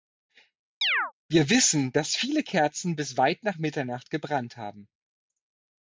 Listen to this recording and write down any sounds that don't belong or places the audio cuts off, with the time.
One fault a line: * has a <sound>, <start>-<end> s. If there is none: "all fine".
* has a chirp, 0.8-1.1 s